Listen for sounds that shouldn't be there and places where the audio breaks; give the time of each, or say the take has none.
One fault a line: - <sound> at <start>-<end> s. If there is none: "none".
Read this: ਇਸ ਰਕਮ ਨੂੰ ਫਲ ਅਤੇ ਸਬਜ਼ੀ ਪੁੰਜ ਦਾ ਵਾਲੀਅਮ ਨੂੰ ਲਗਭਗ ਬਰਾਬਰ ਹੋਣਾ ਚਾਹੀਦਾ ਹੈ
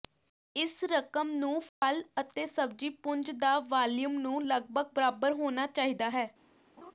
- dropout at 1.7-1.8 s
- laugh at 6.8-6.9 s